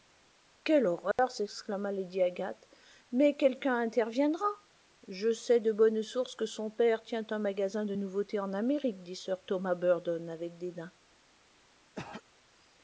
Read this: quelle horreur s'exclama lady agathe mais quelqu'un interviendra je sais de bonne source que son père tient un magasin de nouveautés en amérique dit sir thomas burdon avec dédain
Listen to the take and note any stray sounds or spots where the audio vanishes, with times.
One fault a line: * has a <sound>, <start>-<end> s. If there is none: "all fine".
* has a dropout, 1.1-1.2 s
* has a throat clearing, 12.0-12.2 s